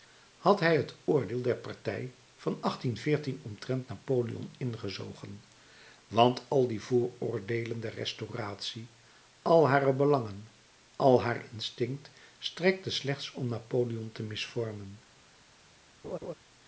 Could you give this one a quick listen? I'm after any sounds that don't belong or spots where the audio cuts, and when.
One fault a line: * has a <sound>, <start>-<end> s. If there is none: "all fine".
* has a laugh, 16.0-16.3 s